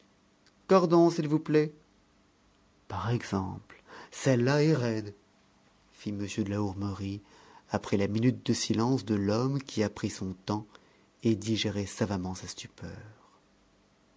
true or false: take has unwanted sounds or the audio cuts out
false